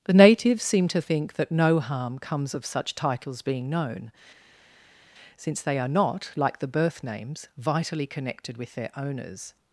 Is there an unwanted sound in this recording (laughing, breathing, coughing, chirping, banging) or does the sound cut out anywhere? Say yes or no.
no